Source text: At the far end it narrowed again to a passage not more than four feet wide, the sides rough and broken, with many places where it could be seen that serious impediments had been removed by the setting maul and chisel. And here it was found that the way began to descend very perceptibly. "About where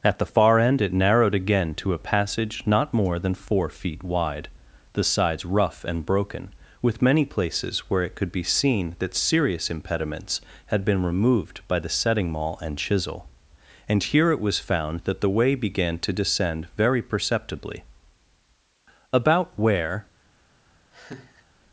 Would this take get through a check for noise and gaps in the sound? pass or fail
fail